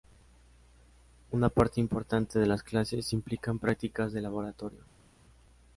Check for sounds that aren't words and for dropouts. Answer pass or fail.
pass